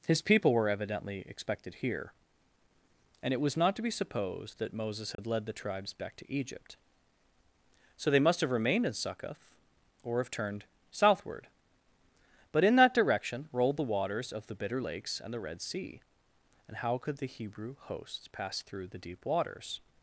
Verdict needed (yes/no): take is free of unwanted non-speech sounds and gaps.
no